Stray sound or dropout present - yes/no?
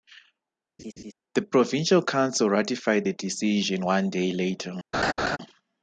yes